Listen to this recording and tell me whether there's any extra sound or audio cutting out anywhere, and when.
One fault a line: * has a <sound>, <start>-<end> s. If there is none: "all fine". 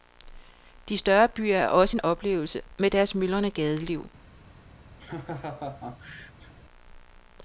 * has a laugh, 5.0-6.5 s